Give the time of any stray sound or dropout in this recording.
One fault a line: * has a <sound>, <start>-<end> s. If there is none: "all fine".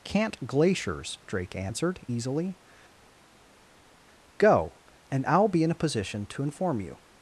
all fine